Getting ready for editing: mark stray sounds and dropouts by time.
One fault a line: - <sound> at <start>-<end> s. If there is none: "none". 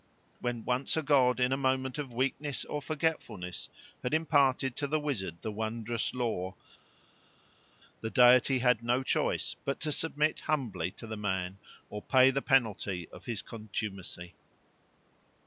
none